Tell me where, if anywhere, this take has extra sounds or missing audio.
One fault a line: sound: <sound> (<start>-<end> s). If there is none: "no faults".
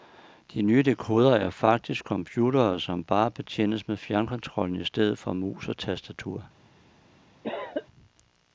sound: cough (7.4-7.9 s)